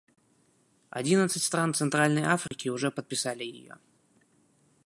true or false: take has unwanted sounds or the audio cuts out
true